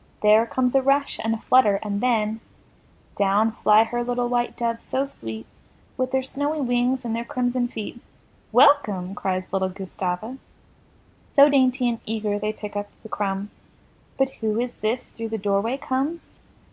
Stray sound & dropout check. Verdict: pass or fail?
pass